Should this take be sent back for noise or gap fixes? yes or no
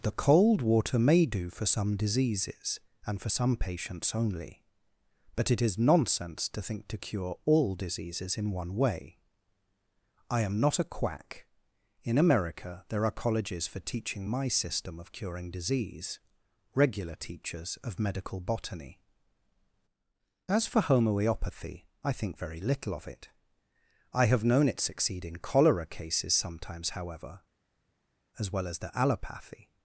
no